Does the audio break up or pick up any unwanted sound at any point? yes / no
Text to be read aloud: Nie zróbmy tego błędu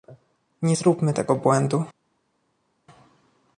no